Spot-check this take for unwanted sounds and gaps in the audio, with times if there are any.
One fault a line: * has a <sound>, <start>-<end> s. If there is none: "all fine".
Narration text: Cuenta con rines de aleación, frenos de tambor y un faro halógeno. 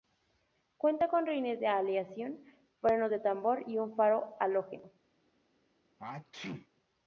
* has a sneeze, 6.0-6.7 s